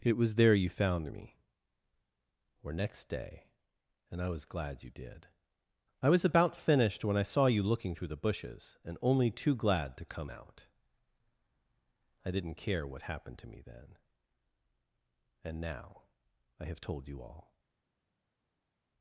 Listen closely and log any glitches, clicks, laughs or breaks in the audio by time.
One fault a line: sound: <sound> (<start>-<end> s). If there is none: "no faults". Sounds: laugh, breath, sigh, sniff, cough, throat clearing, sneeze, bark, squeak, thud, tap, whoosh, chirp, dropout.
no faults